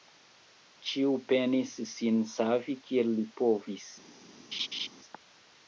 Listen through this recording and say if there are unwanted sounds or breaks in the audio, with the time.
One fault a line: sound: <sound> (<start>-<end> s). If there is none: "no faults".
sound: laugh (4.5-4.9 s)